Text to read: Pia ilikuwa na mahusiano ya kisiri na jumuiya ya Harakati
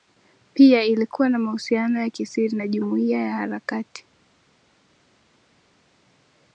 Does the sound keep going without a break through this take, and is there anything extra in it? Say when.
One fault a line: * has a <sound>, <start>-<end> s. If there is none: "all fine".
all fine